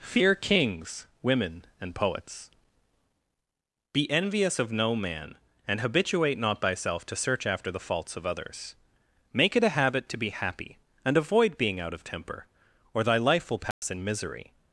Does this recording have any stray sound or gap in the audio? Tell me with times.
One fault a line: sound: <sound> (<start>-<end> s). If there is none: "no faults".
sound: dropout (13.7-13.8 s)